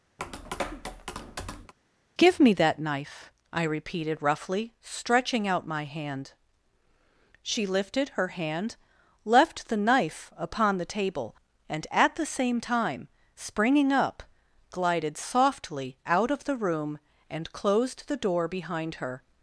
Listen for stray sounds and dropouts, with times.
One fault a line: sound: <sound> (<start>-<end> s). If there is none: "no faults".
sound: tap (0.2-1.7 s)